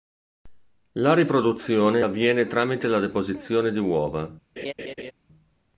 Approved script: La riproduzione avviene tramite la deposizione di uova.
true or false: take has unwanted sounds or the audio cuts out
true